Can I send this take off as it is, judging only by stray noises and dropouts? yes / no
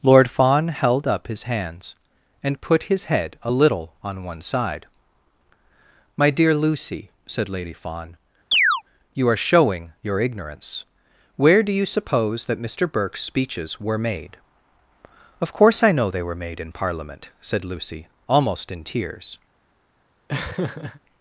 no